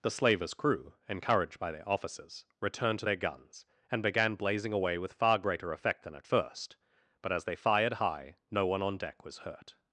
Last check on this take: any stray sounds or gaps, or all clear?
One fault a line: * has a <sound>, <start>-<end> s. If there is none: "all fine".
all fine